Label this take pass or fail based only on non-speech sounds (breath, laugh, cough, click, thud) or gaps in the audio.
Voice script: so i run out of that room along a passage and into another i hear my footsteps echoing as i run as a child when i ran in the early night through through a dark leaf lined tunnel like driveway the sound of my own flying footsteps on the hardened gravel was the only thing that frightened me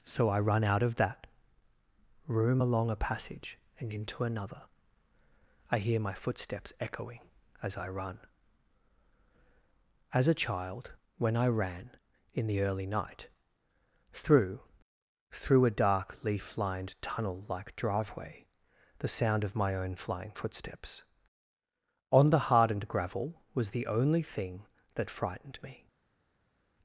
pass